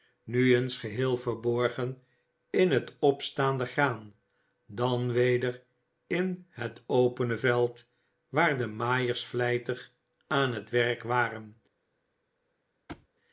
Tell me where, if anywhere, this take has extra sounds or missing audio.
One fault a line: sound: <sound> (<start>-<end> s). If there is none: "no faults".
sound: thud (12.9-13.1 s)